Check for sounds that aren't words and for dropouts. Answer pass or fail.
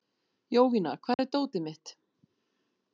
fail